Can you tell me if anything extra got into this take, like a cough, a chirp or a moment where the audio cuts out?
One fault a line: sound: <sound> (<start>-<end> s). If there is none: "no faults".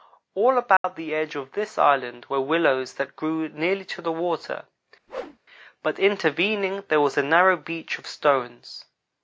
sound: dropout (0.8-0.8 s)
sound: whoosh (5.1-5.4 s)